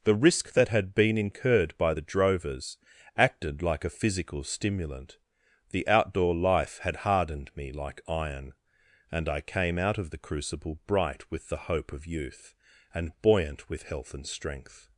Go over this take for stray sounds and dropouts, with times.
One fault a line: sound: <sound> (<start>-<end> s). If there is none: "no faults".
no faults